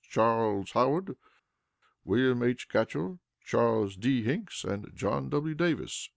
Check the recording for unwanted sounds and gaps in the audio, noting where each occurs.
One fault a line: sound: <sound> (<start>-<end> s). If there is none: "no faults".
no faults